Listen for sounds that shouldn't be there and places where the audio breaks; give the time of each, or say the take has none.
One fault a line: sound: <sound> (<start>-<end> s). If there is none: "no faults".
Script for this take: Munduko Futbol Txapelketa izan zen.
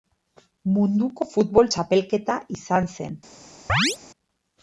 sound: chirp (3.7-4.0 s)